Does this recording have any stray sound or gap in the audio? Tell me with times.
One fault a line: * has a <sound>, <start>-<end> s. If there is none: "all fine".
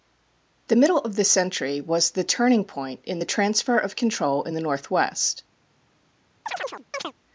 * has a chirp, 6.5-7.1 s